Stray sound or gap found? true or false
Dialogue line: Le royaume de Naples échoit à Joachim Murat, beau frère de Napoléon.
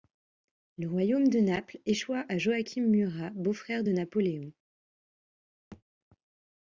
true